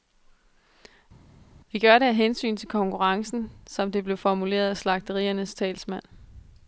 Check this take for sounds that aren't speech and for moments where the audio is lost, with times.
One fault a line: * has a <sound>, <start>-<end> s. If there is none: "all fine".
all fine